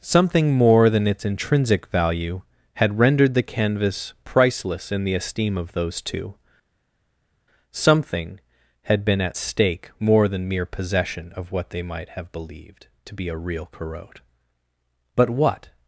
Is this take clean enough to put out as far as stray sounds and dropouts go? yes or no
yes